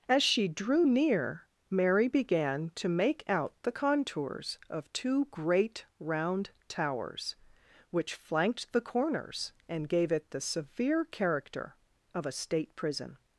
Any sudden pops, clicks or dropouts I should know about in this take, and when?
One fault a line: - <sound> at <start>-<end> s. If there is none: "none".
none